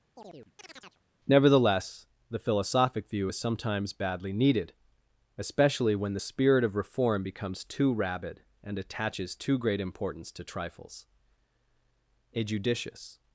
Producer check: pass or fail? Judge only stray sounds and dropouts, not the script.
fail